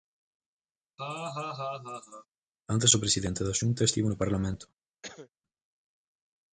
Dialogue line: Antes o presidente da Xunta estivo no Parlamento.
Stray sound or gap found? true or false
true